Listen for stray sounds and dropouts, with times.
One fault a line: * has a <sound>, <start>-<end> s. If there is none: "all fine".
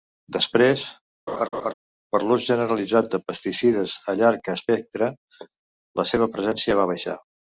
* has a laugh, 1.3-1.7 s